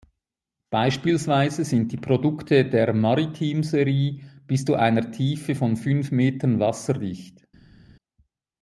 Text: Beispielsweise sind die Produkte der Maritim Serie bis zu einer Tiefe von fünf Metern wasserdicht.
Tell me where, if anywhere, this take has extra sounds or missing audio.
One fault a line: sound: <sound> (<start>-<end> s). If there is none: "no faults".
no faults